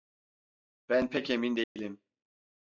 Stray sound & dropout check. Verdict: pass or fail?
fail